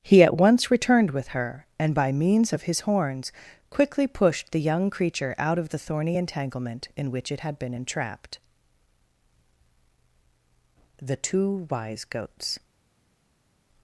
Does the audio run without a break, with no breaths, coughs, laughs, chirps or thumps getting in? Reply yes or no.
yes